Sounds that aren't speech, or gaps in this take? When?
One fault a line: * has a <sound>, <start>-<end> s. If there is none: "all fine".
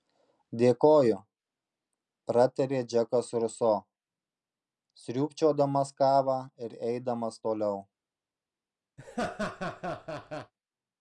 * has a laugh, 9.0-10.5 s